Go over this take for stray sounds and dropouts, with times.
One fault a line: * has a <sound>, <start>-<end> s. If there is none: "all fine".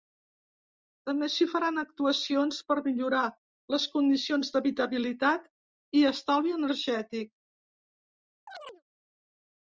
* has a chirp, 8.5-8.8 s